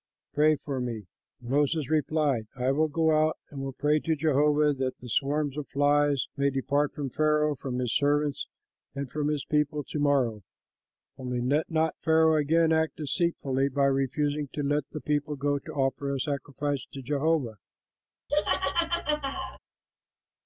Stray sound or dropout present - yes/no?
yes